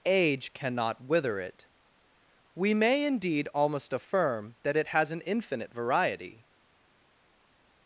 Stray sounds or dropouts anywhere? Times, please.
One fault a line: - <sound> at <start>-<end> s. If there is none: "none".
none